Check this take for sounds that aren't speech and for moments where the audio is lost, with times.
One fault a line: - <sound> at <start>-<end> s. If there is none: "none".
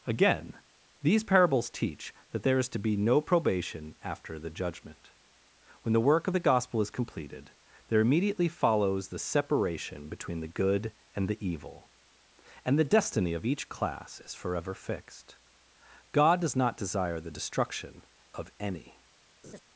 - laugh at 19.4-19.6 s